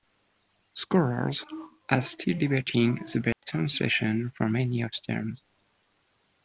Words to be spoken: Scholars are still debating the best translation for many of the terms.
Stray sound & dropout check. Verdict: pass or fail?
fail